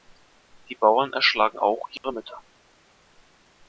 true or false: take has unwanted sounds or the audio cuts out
true